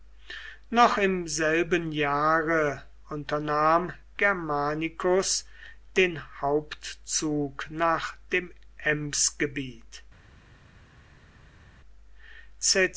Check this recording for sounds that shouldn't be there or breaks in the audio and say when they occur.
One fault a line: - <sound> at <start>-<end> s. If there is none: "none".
none